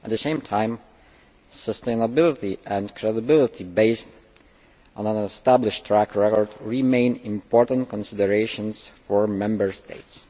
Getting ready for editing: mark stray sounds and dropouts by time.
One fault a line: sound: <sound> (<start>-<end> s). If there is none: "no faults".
no faults